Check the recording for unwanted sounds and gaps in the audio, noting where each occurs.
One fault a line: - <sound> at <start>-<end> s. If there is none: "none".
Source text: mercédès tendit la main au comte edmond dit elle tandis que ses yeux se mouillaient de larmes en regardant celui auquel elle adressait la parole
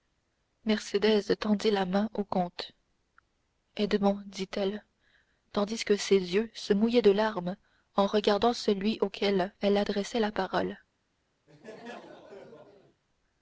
- laugh at 11.5-13.0 s